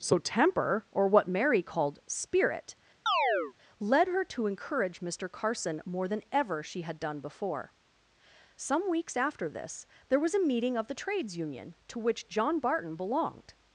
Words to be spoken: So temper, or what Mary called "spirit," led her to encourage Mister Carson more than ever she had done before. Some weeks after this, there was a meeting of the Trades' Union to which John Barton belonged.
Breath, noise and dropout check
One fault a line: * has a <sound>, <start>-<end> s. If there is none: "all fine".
* has a chirp, 3.1-3.5 s